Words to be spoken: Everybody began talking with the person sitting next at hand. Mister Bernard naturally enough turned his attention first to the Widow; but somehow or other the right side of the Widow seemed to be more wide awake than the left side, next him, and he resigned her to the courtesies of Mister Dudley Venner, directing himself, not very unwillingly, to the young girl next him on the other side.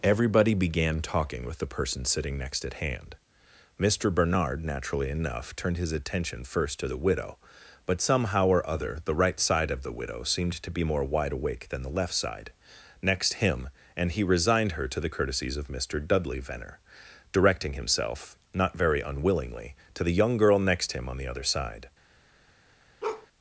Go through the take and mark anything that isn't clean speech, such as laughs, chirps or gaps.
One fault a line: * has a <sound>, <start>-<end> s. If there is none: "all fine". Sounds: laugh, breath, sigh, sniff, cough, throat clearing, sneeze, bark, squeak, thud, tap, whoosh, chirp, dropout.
* has a bark, 23.0-23.3 s